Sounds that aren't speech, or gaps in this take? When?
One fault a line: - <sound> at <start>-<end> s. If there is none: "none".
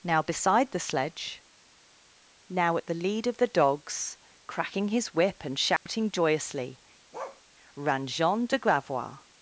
- dropout at 5.8-5.9 s
- bark at 7.1-7.4 s